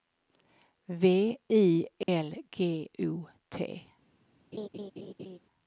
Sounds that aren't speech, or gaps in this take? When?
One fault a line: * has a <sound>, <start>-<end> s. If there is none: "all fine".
* has a dropout, 2.0-2.1 s
* has a laugh, 4.5-5.4 s